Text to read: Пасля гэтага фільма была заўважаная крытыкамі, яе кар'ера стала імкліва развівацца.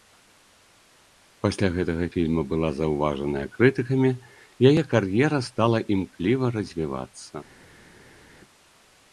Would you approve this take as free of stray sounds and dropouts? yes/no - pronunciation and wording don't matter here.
yes